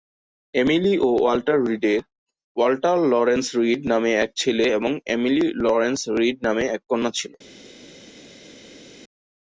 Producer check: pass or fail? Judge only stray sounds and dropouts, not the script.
pass